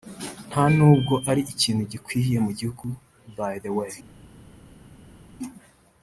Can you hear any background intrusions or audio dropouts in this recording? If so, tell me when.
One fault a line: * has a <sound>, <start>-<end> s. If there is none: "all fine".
all fine